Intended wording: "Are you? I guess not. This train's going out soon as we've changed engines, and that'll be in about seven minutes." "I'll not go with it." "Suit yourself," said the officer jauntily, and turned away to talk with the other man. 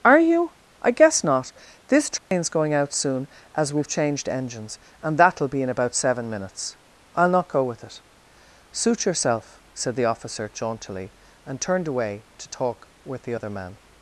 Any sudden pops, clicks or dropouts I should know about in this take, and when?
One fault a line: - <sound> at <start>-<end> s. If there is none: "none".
- dropout at 2.2-2.3 s